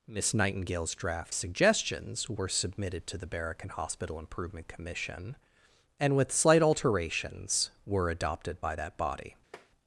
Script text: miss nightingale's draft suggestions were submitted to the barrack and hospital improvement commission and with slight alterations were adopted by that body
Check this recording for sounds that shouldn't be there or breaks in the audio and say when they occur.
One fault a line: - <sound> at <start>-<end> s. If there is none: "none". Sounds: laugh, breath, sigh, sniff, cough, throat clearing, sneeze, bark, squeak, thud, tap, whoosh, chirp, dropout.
- tap at 9.5-9.7 s